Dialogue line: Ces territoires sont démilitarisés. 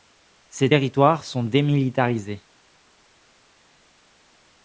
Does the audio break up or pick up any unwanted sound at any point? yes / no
no